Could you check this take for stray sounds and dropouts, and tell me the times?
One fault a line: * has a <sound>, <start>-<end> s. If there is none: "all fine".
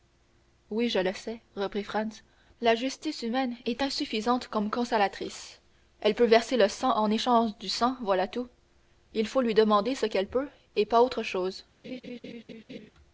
* has a laugh, 11.8-12.9 s